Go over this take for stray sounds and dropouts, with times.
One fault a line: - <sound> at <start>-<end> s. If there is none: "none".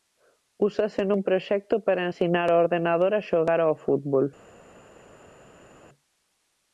none